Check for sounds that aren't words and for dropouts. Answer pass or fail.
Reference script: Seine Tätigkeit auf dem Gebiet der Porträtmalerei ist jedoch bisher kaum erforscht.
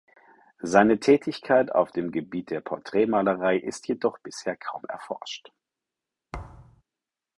fail